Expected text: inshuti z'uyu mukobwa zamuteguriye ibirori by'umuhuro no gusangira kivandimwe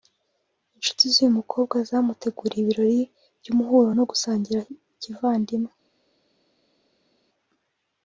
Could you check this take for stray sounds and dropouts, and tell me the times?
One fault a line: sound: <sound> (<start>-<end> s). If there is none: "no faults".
no faults